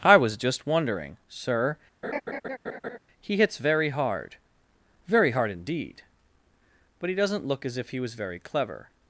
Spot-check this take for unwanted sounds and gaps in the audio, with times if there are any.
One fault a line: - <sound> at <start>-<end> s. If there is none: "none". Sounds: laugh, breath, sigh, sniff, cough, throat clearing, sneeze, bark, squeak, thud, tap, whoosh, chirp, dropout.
- laugh at 2.0-3.0 s